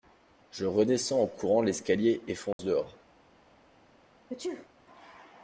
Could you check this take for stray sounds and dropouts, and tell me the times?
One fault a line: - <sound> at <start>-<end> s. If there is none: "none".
- dropout at 2.5-2.6 s
- sneeze at 4.3-4.7 s